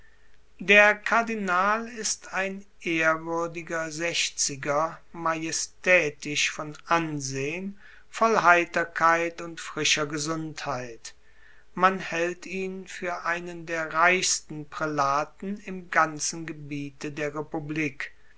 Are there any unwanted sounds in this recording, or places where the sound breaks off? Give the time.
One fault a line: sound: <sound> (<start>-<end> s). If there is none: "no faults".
no faults